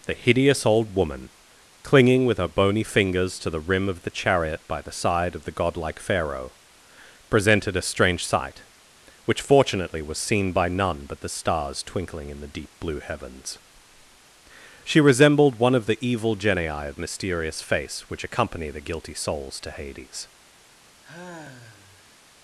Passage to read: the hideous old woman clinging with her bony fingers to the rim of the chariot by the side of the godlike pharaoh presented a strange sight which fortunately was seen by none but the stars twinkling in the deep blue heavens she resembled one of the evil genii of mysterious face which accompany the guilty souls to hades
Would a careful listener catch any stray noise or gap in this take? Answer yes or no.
yes